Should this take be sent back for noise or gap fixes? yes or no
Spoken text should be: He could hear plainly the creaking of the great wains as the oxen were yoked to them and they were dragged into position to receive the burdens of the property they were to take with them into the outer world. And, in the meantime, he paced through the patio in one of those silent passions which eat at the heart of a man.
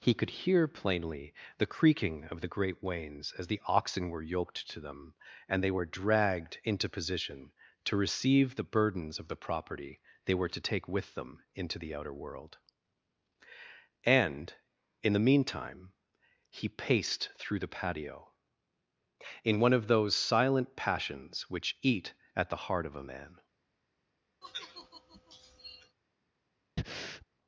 yes